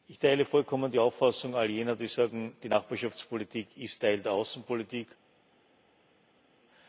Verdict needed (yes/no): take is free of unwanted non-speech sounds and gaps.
yes